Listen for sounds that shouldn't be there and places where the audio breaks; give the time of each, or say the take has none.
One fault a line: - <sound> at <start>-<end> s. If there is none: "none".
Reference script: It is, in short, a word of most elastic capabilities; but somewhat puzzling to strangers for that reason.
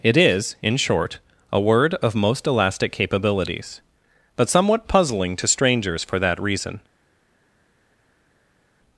none